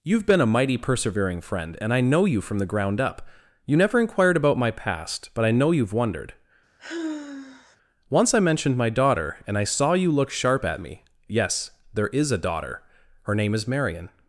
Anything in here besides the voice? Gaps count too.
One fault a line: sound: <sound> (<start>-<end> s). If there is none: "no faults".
sound: sigh (6.8-7.8 s)